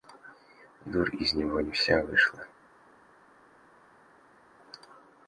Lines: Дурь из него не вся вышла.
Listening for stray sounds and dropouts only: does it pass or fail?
pass